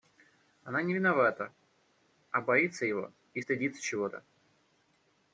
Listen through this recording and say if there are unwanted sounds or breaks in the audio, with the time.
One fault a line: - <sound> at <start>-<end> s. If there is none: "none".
none